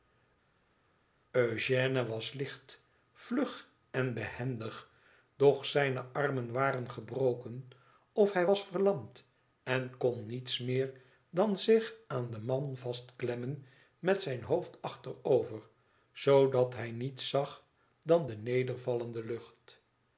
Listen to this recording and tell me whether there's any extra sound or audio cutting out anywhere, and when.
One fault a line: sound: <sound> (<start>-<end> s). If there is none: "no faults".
no faults